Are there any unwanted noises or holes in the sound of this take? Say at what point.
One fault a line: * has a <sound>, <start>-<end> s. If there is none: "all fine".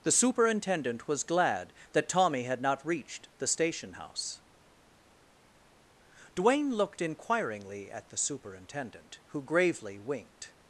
all fine